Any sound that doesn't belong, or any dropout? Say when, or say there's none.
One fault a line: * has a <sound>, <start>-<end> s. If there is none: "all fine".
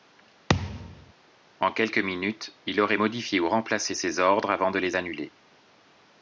* has a thud, 0.5-1.1 s